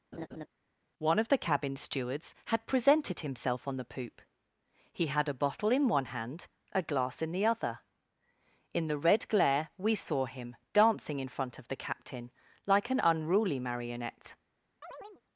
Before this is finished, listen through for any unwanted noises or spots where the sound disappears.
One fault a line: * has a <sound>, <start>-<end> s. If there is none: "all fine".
* has a laugh, 0.1-0.5 s
* has a chirp, 14.8-15.2 s